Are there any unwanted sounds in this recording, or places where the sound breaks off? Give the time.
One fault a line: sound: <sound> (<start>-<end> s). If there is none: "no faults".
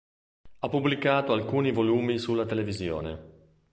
no faults